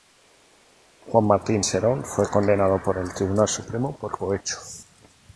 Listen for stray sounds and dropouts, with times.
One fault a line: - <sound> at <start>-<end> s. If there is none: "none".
none